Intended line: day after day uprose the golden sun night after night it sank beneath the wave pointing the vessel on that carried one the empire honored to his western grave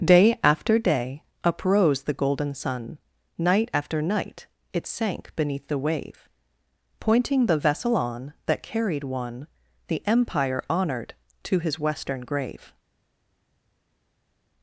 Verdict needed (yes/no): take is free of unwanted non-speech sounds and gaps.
yes